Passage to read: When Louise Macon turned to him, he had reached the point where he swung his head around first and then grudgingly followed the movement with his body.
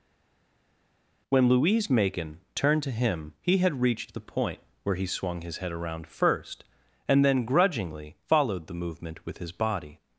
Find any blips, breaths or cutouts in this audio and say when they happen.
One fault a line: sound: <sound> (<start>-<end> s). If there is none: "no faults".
no faults